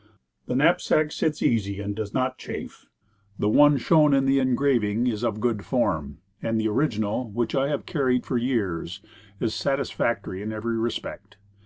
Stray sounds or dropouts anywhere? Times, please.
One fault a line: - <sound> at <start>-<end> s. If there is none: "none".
none